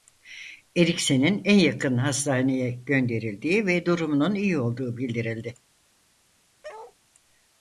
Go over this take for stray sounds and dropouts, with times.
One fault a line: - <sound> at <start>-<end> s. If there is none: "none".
- bark at 6.6-7.0 s